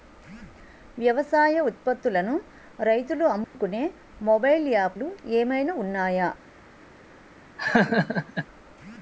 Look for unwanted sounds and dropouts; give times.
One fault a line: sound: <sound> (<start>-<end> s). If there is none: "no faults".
sound: dropout (3.4-3.5 s)
sound: laugh (7.6-8.5 s)